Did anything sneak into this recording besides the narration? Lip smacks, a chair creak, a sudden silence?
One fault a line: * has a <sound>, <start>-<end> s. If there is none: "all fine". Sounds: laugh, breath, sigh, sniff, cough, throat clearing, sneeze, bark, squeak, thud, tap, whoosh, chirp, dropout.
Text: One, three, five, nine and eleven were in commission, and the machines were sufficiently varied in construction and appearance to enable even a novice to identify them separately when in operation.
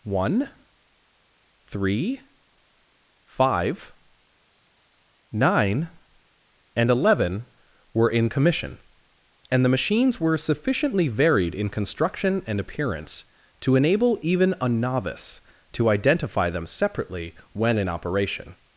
all fine